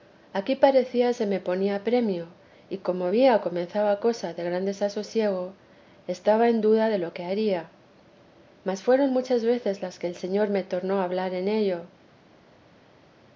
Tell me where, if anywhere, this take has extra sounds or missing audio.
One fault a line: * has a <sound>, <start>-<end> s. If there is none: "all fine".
all fine